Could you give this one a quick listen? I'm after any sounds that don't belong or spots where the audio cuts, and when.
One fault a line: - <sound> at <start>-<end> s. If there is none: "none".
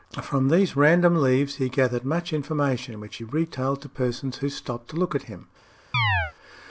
- chirp at 5.9-6.3 s